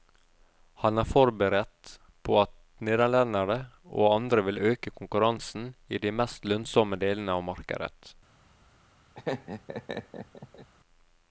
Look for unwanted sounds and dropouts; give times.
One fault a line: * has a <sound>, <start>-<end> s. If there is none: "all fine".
* has a laugh, 9.1-10.7 s